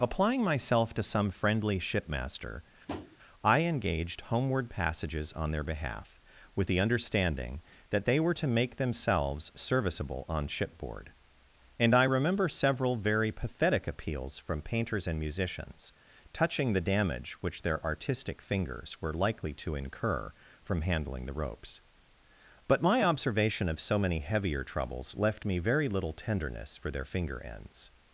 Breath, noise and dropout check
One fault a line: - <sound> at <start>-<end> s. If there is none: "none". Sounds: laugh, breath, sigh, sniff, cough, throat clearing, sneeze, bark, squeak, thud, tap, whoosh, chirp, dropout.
- tap at 2.9-3.2 s